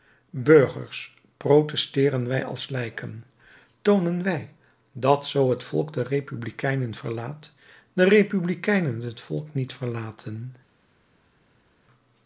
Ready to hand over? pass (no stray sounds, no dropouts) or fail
pass